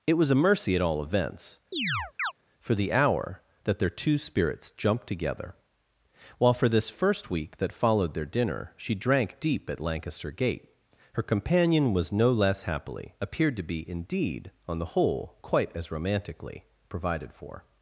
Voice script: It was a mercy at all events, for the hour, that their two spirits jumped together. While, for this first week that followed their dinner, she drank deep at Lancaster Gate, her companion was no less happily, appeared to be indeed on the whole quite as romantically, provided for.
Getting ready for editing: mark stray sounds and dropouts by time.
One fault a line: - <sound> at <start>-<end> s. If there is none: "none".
- chirp at 1.7-2.3 s